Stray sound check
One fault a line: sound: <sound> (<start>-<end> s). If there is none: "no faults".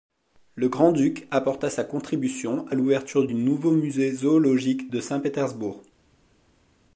no faults